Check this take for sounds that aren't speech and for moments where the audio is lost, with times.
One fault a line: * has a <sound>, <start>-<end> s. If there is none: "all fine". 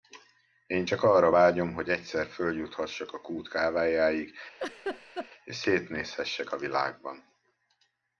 * has a laugh, 4.6-5.3 s